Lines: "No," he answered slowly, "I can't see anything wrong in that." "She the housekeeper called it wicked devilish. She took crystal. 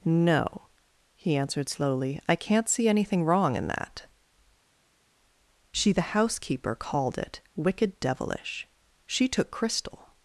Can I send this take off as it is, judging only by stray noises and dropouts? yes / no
yes